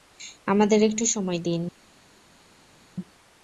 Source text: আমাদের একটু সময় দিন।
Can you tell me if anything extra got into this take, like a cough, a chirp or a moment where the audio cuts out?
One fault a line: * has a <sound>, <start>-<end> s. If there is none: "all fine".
all fine